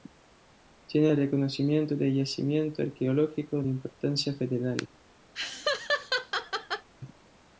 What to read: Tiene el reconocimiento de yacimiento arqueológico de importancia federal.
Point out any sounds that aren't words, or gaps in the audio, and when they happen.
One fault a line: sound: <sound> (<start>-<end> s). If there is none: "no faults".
sound: laugh (5.3-6.9 s)